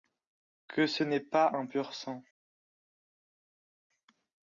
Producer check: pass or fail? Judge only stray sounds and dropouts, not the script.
pass